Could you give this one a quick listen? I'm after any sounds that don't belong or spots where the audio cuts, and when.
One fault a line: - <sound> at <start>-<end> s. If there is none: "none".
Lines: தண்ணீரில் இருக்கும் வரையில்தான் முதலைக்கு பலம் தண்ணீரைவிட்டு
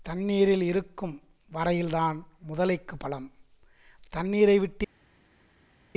none